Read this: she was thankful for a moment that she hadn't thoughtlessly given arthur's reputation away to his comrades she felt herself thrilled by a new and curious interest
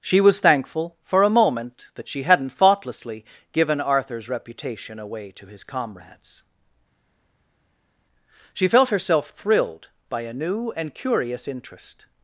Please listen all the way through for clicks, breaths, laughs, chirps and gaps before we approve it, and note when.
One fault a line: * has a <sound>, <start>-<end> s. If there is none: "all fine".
all fine